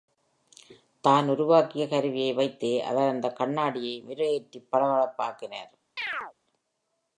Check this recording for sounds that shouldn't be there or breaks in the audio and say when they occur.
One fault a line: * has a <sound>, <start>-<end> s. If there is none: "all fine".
* has a chirp, 6.0-6.3 s